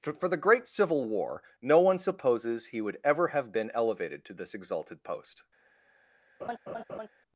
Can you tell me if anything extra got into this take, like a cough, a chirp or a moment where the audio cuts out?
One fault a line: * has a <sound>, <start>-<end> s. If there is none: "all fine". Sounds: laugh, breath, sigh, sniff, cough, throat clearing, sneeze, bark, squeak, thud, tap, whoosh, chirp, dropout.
* has a laugh, 6.4-7.1 s